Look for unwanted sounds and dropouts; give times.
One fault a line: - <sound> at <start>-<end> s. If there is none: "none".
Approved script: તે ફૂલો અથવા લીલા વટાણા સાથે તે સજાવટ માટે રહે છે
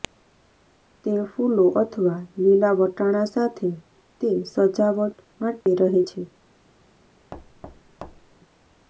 - dropout at 5.6-5.7 s
- thud at 7.3-8.4 s